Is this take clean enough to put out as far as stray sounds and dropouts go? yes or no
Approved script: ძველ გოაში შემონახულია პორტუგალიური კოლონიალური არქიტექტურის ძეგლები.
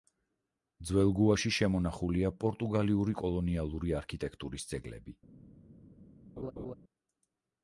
no